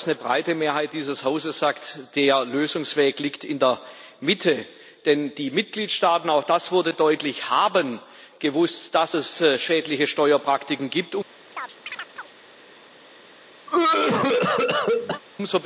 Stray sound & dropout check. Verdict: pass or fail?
fail